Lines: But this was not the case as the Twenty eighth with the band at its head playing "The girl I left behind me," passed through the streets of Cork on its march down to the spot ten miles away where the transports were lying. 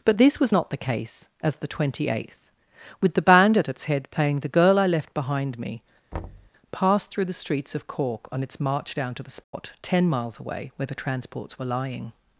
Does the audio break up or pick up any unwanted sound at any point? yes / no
yes